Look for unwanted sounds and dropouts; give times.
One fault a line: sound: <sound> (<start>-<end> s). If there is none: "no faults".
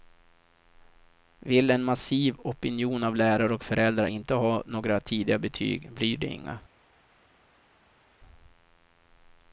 no faults